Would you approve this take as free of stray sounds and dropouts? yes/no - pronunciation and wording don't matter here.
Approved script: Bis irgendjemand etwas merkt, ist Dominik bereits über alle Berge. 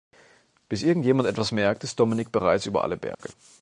no